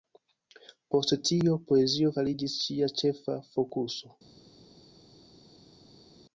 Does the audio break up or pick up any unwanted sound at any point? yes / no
no